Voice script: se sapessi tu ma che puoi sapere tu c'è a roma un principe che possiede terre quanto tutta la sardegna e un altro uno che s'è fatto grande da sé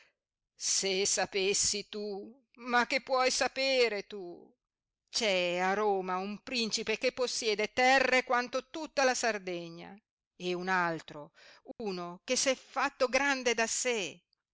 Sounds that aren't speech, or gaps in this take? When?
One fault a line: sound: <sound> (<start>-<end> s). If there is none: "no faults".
sound: dropout (11.7-11.8 s)